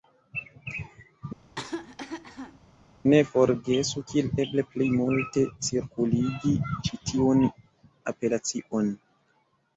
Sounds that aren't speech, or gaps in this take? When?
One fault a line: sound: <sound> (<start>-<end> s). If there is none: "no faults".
sound: cough (1.4-2.6 s)